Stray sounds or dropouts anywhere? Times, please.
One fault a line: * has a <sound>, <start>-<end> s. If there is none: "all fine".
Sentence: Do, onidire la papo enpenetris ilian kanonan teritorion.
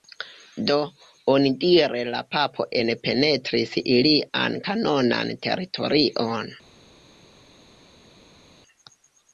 all fine